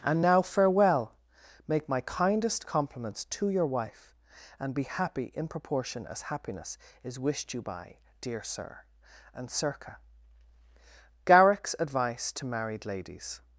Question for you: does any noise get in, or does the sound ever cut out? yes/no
no